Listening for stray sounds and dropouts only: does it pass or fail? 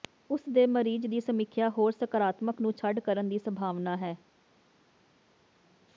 pass